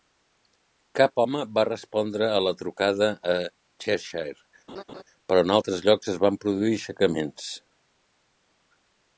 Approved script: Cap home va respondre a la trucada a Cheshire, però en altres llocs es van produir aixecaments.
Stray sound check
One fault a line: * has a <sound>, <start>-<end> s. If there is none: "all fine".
* has a laugh, 4.7-5.0 s